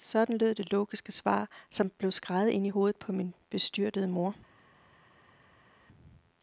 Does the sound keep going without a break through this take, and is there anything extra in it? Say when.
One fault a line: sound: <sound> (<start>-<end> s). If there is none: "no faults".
no faults